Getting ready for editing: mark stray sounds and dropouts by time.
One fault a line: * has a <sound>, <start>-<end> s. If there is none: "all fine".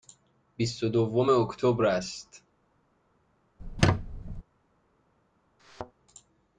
* has a squeak, 3.6-4.4 s
* has a thud, 5.6-5.9 s